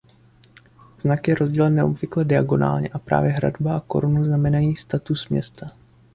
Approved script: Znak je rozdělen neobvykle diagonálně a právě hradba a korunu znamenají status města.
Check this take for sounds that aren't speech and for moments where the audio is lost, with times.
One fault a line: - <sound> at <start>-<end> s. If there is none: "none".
none